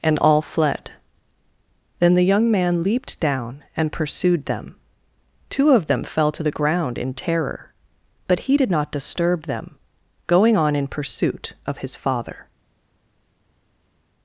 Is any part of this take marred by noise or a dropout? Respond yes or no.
no